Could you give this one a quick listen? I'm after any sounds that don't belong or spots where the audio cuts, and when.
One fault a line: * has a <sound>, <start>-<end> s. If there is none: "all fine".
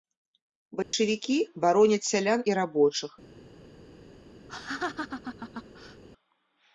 * has a dropout, 0.8-0.9 s
* has a laugh, 4.5-6.0 s